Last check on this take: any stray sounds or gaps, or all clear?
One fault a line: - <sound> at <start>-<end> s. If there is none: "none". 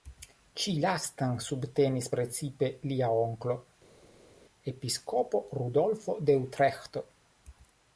none